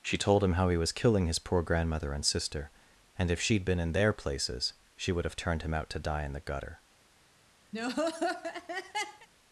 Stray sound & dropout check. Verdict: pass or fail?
fail